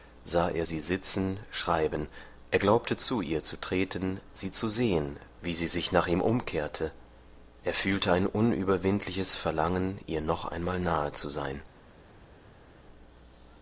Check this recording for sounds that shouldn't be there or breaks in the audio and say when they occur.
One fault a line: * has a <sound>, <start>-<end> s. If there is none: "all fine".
all fine